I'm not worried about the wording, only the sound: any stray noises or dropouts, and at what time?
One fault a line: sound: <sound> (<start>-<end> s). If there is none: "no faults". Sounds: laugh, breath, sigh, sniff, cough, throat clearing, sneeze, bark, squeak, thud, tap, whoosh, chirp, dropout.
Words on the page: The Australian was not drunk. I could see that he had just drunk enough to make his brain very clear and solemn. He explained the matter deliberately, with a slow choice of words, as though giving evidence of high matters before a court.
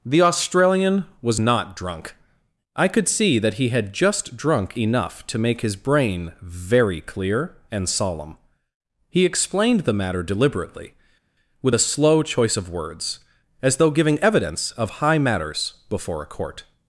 no faults